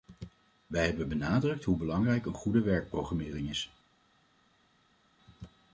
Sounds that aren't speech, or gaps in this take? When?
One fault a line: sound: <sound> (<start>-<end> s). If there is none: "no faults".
no faults